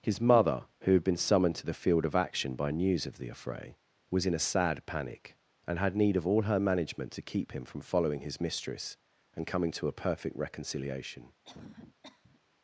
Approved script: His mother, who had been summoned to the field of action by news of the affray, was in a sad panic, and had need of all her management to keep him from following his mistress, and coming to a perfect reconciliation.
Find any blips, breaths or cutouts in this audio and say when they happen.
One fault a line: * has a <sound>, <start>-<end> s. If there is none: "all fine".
* has a cough, 11.4-12.4 s